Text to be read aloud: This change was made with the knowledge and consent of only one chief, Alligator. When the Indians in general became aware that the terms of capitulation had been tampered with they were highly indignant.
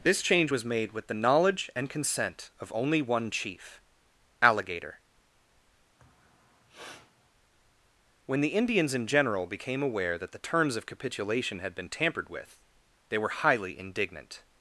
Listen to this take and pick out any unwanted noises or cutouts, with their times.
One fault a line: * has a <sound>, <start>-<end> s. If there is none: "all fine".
* has a sniff, 6.0-7.3 s